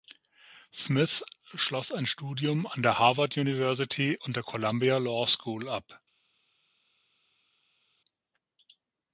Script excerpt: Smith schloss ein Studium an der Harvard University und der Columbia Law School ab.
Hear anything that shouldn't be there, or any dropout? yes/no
no